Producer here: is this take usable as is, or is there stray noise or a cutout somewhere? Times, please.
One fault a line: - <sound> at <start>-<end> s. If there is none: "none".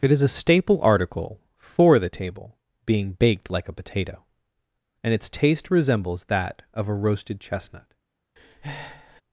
- breath at 8.4-9.2 s